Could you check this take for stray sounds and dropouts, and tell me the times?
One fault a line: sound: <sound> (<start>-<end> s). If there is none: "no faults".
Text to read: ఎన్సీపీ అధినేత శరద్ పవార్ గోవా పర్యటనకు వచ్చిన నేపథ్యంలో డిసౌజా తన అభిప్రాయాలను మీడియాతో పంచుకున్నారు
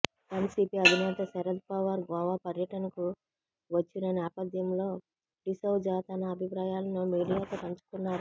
no faults